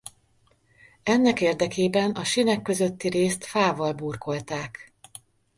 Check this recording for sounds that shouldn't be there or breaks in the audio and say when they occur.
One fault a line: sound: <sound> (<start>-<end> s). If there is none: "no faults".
no faults